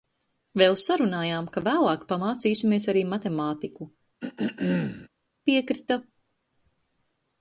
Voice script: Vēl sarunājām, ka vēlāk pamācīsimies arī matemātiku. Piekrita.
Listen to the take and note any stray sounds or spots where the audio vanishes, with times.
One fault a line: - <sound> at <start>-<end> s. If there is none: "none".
- throat clearing at 4.2-5.1 s